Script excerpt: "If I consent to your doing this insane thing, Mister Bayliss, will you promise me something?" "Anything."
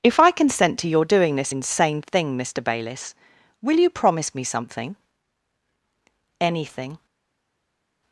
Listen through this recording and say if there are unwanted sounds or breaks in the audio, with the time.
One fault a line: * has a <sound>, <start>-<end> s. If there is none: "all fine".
all fine